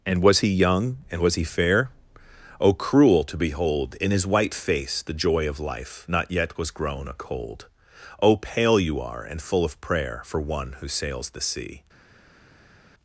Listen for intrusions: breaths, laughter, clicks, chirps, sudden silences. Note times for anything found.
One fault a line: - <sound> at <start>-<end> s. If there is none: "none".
none